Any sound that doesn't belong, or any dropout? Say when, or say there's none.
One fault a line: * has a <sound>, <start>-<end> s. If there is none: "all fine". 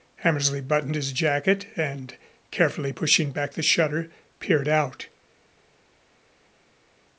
all fine